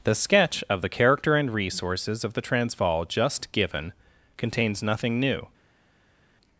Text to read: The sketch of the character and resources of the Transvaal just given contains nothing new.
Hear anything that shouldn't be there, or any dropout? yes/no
no